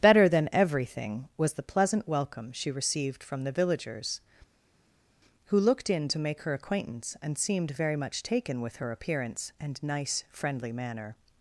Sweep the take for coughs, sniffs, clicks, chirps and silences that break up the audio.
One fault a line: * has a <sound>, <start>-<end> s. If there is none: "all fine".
all fine